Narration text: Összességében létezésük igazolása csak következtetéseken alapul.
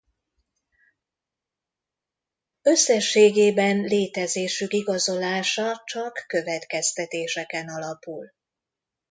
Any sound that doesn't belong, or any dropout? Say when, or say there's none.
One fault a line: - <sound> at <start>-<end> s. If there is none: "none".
none